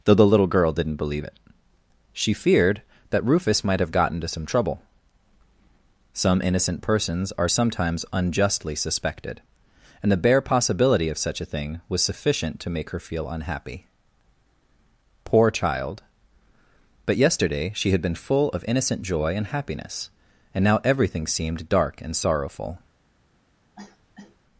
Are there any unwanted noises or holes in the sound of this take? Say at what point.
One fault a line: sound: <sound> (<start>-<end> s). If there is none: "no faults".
sound: cough (23.8-24.4 s)